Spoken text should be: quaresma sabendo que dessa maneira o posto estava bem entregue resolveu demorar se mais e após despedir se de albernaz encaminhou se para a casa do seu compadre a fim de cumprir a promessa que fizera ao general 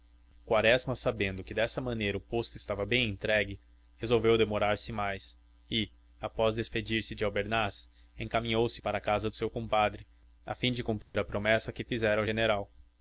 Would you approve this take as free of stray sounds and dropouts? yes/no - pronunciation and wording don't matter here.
no